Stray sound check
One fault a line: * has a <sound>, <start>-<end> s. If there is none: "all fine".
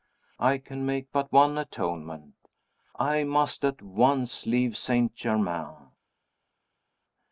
all fine